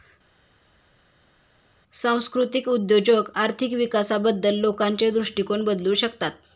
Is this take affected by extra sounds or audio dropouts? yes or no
no